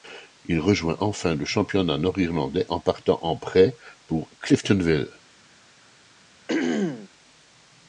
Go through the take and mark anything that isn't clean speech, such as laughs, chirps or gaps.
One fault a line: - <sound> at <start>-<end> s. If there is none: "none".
- throat clearing at 6.5-7.1 s